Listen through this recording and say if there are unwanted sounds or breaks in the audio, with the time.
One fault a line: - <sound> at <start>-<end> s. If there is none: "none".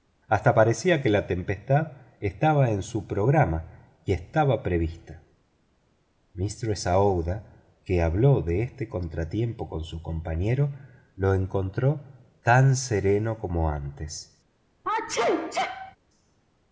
- sneeze at 14.8-16.0 s